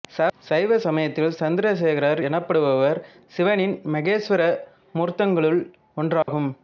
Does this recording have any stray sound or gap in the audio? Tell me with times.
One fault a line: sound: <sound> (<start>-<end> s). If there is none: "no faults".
sound: dropout (6.2-6.3 s)